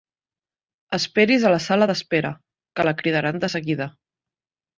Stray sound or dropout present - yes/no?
no